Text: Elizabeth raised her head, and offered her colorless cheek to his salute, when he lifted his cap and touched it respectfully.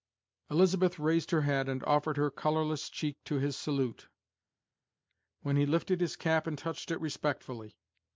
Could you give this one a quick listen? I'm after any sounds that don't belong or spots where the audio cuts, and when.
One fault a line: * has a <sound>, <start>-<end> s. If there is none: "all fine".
all fine